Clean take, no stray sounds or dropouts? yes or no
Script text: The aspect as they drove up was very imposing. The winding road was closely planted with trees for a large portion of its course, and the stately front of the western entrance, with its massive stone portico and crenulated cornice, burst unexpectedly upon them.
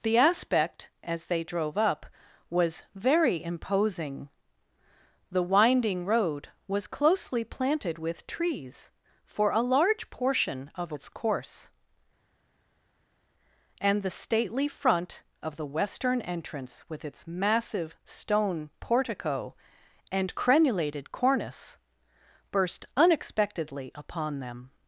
yes